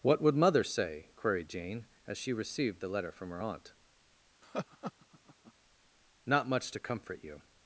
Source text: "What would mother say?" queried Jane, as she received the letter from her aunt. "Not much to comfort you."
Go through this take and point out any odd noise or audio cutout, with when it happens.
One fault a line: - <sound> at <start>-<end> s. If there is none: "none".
- laugh at 4.4-5.5 s